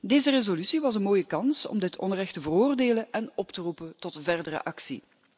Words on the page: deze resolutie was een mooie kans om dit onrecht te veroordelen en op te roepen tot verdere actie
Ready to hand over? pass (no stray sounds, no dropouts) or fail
pass